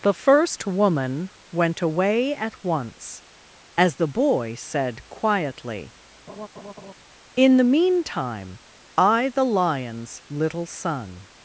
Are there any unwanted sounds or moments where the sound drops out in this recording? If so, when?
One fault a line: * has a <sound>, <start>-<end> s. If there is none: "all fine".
* has a laugh, 6.3-6.9 s